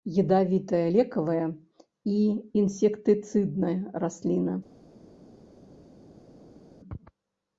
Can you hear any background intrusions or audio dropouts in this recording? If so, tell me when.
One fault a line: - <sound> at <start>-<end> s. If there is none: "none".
none